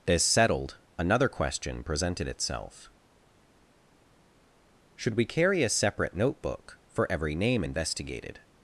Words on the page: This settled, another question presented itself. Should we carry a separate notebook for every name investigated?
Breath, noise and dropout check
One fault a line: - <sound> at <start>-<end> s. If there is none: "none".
none